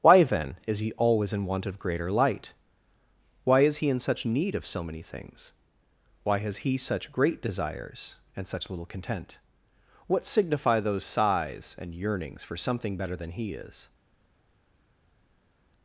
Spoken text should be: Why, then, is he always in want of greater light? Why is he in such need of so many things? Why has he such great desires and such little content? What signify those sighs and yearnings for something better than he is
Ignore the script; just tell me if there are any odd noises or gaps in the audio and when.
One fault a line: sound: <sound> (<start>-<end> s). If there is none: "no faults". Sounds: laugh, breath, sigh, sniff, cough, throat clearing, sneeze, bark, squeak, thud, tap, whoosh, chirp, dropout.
no faults